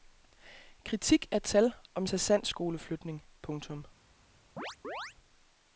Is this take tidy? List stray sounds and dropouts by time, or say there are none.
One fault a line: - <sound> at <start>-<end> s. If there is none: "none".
- chirp at 4.6-5.1 s